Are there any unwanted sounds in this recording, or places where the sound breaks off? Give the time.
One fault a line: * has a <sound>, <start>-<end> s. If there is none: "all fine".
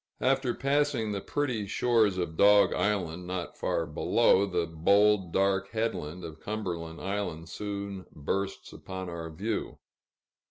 all fine